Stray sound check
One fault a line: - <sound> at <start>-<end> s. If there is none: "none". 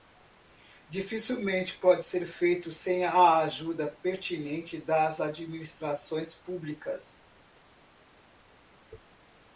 none